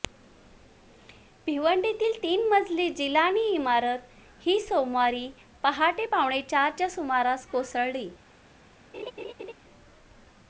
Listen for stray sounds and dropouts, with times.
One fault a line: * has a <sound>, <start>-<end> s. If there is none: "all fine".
* has a laugh, 8.9-9.5 s